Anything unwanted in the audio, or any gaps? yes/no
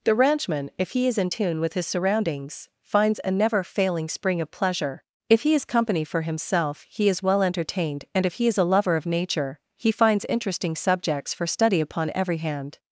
no